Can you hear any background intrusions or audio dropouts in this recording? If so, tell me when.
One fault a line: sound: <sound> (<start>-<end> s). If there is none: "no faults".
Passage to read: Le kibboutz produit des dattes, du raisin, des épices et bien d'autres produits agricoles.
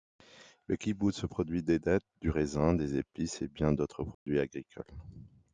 sound: dropout (4.1-4.3 s)